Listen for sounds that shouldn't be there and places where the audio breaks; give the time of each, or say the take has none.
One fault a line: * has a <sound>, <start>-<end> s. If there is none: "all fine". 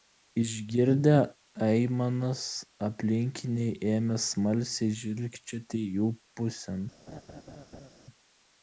* has a laugh, 7.1-7.9 s